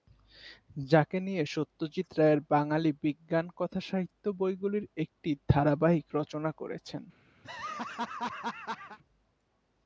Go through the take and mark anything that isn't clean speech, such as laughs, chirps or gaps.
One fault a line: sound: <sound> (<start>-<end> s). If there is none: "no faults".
sound: laugh (7.4-9.0 s)